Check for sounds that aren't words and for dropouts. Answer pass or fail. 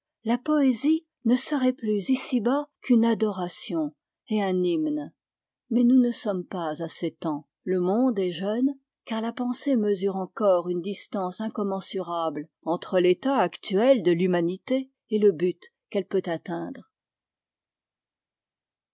pass